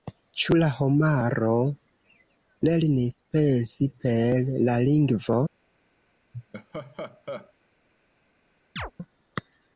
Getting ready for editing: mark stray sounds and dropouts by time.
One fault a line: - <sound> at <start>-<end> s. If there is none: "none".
- laugh at 6.3-7.5 s
- chirp at 8.8-8.9 s